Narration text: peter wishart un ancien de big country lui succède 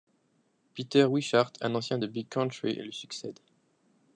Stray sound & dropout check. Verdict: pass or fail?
pass